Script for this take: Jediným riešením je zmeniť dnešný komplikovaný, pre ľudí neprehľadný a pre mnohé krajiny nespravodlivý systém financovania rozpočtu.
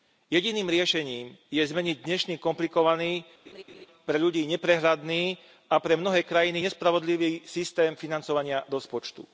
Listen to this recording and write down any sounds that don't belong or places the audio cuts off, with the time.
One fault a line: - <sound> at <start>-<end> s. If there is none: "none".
- laugh at 3.5-3.9 s